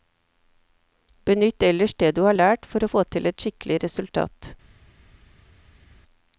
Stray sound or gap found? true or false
false